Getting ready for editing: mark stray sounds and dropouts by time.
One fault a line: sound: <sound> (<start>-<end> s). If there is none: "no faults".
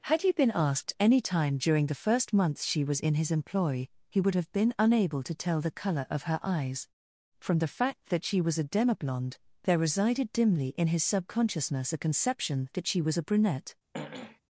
sound: throat clearing (13.9-14.4 s)